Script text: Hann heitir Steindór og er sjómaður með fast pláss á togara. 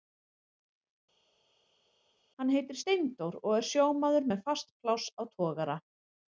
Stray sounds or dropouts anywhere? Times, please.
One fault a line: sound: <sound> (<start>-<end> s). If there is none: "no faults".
no faults